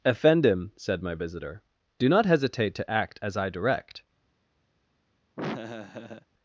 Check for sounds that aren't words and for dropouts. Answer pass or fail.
fail